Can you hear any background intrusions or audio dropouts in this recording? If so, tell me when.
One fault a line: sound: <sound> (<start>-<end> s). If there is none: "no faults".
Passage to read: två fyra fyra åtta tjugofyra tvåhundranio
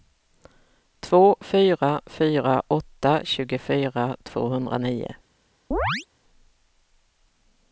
sound: chirp (5.7-6.1 s)